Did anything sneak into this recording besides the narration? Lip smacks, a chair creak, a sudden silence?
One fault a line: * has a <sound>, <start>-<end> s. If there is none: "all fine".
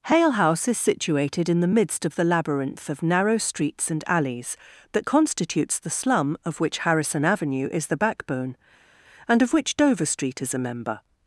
all fine